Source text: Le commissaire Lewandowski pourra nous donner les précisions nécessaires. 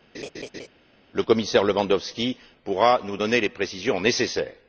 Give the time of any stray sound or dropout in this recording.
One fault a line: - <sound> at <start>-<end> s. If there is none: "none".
- laugh at 0.1-0.7 s